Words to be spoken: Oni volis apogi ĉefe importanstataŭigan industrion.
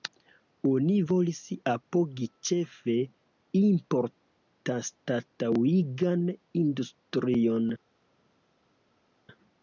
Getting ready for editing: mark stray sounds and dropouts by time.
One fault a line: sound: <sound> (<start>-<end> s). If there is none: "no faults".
no faults